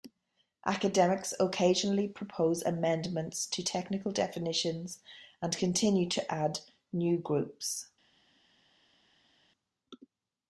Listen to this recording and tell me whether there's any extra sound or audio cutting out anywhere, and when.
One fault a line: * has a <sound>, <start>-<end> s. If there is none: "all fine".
all fine